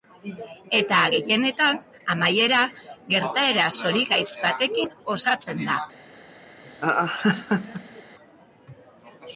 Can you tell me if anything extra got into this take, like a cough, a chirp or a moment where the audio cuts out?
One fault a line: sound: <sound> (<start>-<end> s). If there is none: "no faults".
sound: laugh (6.6-8.0 s)